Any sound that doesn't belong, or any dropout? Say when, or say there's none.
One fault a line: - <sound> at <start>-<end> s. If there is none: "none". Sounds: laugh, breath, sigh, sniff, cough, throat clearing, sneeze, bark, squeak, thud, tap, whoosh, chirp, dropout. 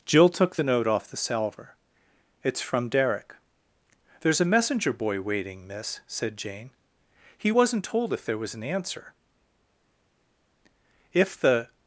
none